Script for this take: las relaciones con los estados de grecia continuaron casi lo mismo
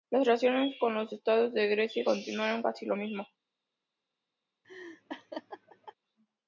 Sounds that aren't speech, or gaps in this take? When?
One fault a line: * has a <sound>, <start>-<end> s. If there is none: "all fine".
* has a laugh, 4.6-5.9 s